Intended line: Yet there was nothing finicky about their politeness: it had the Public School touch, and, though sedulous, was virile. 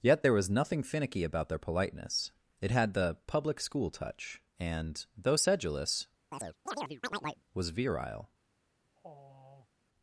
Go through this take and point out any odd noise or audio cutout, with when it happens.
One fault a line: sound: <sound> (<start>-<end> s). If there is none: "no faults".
sound: chirp (6.3-7.4 s)
sound: sigh (9.0-9.7 s)